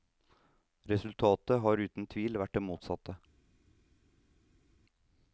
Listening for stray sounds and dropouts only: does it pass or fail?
pass